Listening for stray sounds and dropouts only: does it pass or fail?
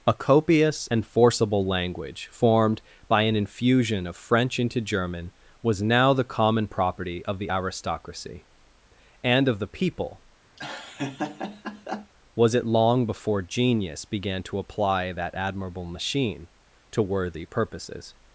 fail